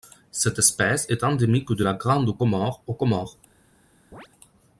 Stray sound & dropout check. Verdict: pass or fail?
fail